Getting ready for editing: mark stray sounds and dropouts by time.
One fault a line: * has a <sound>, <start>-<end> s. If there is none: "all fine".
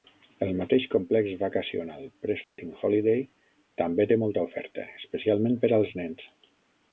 * has a dropout, 2.4-2.6 s